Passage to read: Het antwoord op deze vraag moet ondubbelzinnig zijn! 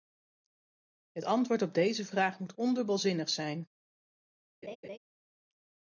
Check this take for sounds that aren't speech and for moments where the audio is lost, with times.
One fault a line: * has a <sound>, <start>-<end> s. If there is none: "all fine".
* has a laugh, 4.6-5.0 s